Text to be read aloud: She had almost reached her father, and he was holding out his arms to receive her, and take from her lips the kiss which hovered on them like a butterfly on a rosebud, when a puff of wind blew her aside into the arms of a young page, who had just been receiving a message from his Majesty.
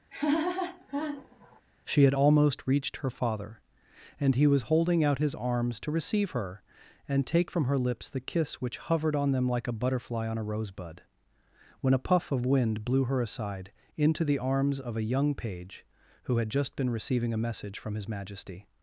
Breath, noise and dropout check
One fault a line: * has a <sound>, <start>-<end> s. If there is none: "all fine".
* has a laugh, 0.1-1.6 s